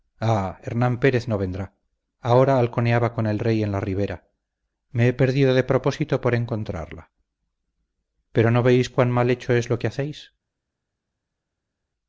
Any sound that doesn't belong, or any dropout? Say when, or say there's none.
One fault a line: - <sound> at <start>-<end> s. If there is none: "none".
none